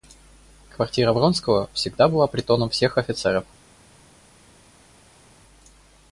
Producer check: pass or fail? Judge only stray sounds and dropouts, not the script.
pass